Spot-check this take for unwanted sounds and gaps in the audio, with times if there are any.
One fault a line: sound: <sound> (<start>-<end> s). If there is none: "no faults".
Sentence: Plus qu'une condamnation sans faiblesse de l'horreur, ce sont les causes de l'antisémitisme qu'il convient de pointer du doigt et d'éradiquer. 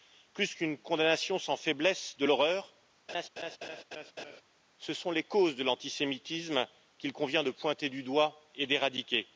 sound: laugh (3.1-4.4 s)